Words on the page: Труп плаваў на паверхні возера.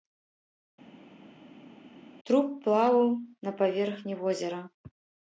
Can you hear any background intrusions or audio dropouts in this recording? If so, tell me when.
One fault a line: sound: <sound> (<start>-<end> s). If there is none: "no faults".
no faults